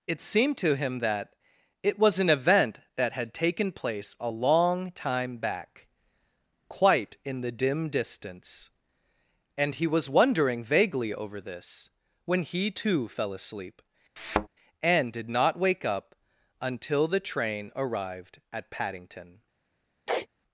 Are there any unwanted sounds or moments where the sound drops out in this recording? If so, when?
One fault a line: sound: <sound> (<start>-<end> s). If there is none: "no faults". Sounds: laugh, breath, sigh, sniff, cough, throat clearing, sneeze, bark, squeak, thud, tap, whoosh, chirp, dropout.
sound: thud (14.2-14.5 s)
sound: sneeze (20.1-20.3 s)